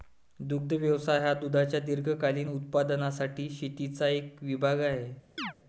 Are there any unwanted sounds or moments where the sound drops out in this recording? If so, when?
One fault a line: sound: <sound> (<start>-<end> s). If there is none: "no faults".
sound: chirp (5.4-5.5 s)